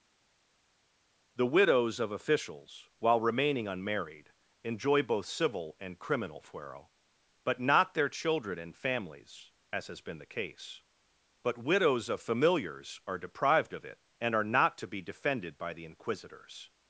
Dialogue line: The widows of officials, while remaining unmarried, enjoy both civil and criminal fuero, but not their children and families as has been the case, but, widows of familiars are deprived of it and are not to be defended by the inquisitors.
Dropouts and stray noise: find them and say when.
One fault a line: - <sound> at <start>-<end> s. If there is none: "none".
none